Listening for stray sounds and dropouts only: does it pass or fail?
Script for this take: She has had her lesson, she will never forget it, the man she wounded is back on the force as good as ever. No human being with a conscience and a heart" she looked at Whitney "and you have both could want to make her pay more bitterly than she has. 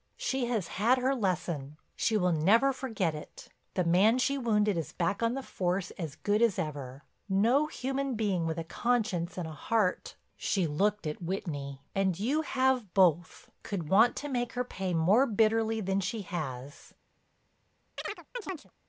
fail